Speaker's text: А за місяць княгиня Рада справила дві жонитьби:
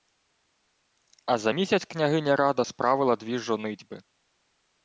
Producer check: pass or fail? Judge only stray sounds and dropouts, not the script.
pass